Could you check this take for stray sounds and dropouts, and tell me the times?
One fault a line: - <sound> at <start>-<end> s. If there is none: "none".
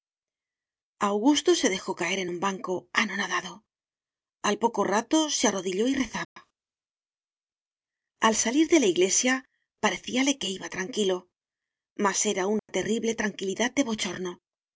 - dropout at 6.2-6.4 s
- dropout at 12.6-12.7 s